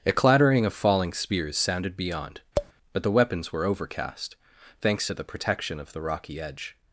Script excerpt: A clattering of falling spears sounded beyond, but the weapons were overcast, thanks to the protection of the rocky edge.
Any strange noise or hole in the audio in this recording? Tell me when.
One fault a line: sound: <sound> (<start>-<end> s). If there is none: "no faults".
sound: tap (2.6-2.7 s)